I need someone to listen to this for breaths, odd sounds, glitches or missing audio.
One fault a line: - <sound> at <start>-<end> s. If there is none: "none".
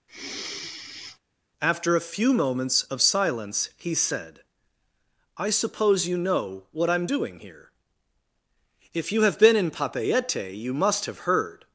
- sigh at 0.1-1.2 s